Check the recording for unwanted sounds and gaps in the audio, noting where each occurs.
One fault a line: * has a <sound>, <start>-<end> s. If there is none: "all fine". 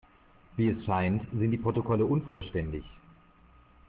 * has a dropout, 2.3-2.4 s